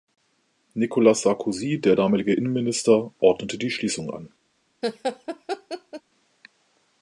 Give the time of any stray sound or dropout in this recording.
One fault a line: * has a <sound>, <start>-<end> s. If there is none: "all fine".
* has a laugh, 4.8-6.0 s